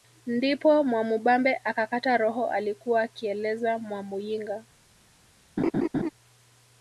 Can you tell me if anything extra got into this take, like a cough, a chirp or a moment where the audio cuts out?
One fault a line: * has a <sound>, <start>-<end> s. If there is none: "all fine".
* has a laugh, 5.6-6.1 s